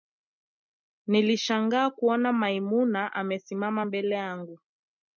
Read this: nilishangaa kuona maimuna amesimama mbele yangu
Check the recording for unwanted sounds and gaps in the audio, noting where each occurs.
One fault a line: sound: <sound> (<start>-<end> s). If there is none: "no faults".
no faults